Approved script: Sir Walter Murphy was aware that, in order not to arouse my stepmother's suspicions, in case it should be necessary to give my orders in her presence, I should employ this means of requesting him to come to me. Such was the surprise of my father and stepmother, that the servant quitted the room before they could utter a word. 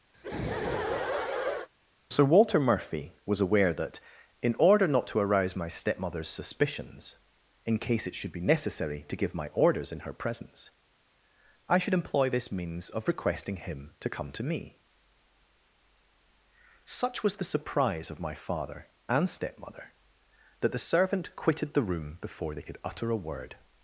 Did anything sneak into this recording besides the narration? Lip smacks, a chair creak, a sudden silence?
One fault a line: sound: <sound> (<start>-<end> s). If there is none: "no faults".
sound: laugh (0.1-1.7 s)